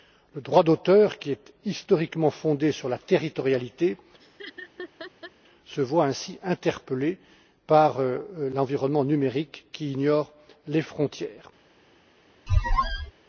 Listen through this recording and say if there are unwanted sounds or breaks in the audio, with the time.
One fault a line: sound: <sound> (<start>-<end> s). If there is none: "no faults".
sound: laugh (4.2-5.3 s)
sound: squeak (12.5-13.1 s)